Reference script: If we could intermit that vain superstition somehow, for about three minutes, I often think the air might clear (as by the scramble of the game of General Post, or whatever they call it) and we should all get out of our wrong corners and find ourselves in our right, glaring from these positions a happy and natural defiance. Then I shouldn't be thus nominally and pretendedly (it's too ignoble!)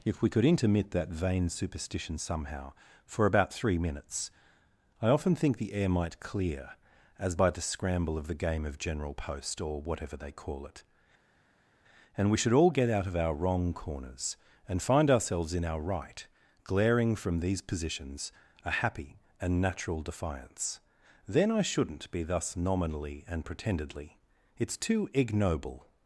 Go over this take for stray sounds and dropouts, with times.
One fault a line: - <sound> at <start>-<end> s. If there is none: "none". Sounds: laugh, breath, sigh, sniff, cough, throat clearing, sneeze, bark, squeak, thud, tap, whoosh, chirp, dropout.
none